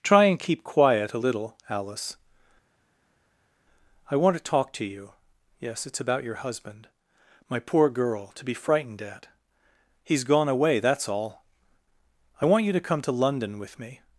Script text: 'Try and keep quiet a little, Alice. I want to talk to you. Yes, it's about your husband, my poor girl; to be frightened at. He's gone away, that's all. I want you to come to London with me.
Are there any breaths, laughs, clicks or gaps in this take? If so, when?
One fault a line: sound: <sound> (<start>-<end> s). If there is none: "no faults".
no faults